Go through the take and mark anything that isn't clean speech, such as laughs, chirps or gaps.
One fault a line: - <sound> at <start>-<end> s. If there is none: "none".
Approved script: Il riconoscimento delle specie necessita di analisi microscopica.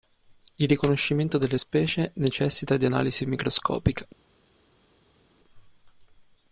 none